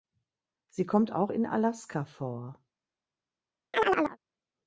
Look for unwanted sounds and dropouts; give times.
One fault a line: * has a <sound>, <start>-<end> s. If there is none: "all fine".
* has a chirp, 3.7-4.2 s